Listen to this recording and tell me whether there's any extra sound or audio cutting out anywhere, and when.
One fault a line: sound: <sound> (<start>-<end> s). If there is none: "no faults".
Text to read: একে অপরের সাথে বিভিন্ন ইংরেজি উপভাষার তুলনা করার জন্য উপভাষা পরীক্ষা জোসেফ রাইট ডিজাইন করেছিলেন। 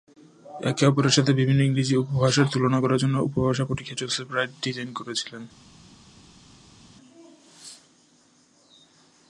no faults